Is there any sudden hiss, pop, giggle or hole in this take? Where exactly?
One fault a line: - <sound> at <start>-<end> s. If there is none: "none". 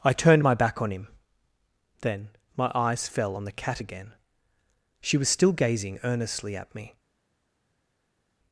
none